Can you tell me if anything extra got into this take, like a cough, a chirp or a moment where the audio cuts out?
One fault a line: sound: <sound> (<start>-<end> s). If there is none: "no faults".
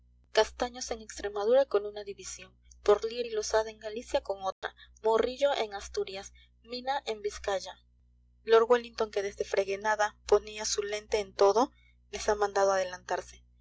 sound: dropout (4.5-4.6 s)